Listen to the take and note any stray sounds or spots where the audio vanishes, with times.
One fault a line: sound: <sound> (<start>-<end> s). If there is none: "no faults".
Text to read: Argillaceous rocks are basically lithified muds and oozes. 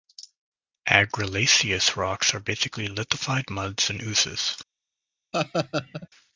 sound: laugh (5.3-6.1 s)